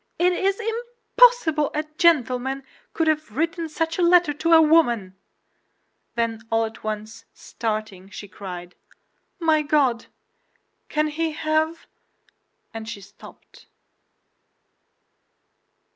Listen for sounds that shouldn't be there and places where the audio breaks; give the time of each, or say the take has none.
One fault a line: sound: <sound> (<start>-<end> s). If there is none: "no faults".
no faults